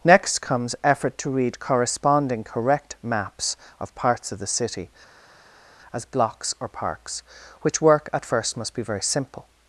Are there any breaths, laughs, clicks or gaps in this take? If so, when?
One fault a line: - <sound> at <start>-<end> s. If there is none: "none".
none